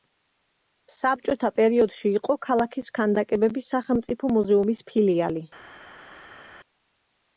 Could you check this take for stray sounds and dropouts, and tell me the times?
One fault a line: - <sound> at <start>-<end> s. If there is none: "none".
none